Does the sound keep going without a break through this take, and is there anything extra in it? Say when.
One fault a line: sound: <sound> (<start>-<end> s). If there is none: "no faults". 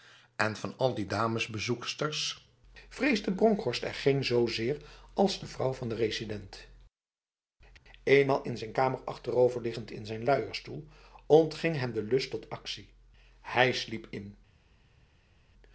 no faults